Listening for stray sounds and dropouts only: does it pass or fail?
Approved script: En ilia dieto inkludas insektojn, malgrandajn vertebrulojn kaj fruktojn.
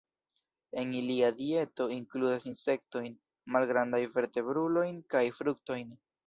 pass